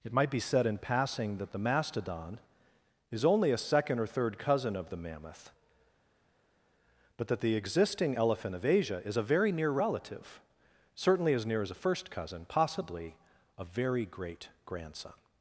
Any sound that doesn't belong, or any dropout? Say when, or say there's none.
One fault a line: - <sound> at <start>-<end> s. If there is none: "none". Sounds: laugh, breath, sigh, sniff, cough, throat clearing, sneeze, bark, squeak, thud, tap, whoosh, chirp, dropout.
none